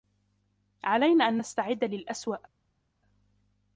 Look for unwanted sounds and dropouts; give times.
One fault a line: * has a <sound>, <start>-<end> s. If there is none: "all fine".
all fine